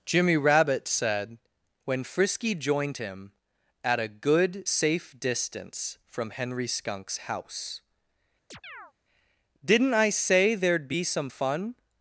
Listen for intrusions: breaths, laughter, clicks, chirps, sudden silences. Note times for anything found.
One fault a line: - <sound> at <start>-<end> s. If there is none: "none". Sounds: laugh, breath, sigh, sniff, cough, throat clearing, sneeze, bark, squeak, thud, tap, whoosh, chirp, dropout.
- chirp at 8.5-8.9 s